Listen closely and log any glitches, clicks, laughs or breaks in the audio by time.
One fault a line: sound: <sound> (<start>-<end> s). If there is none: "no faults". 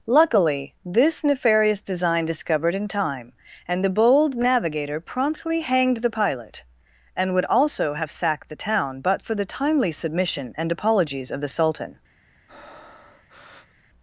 sound: breath (12.5-13.8 s)